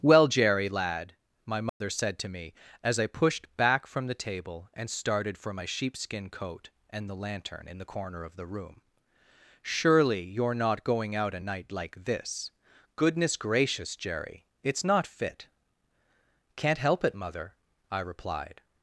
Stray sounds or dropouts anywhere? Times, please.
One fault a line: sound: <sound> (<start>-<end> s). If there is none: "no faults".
sound: dropout (1.7-1.8 s)